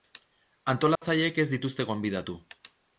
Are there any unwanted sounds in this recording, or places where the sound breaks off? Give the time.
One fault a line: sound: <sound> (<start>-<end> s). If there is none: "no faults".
sound: dropout (1.0-1.0 s)